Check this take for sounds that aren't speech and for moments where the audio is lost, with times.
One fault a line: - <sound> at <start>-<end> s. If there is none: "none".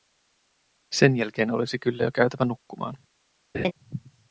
- laugh at 3.5-3.7 s